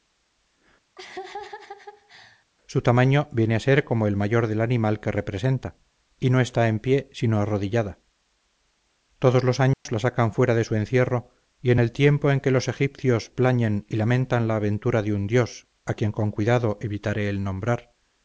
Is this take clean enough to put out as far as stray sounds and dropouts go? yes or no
no